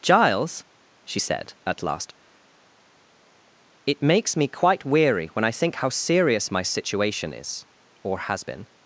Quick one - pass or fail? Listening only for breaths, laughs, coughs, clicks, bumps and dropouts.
pass